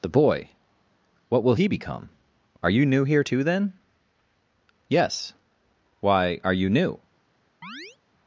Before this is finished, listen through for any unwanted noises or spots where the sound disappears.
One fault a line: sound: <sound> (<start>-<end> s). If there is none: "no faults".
sound: chirp (7.6-8.0 s)